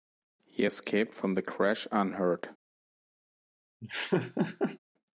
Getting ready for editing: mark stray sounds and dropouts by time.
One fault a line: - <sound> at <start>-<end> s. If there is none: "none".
- laugh at 3.8-4.8 s